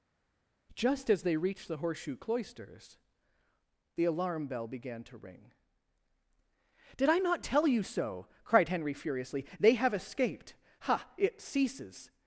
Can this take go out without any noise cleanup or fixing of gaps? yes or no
yes